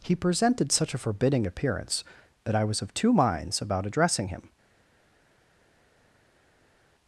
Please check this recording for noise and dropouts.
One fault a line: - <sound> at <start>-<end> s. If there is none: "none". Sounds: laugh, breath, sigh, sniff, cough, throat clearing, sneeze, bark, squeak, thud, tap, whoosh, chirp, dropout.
none